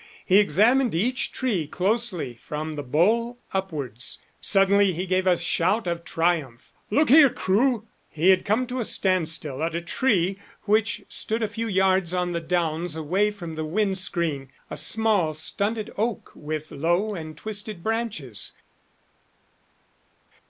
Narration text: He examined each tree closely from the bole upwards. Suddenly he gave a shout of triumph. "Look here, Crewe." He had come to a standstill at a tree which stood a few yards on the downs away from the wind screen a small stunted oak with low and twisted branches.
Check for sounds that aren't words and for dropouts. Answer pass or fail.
pass